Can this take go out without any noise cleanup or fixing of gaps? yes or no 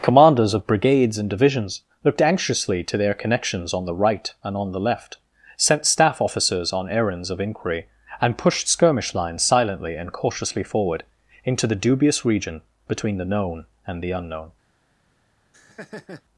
no